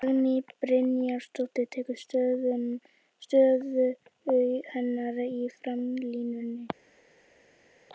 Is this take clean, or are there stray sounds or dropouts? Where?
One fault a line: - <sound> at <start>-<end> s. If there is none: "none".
none